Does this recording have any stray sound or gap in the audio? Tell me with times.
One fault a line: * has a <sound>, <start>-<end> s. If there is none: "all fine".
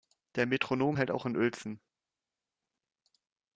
all fine